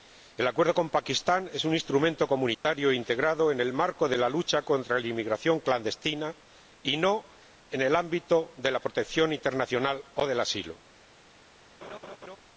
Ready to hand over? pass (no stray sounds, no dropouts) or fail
fail